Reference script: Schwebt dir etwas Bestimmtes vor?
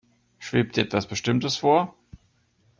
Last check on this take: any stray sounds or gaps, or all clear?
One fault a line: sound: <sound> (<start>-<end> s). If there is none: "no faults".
no faults